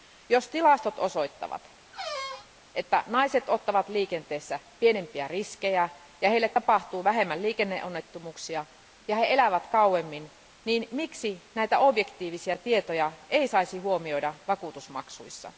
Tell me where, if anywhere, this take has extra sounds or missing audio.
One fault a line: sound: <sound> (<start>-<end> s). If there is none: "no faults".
sound: squeak (1.9-2.5 s)